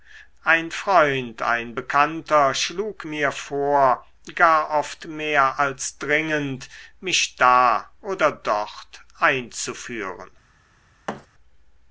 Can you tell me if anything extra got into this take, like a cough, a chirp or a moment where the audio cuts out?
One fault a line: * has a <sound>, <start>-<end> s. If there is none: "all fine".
* has a thud, 11.1-11.3 s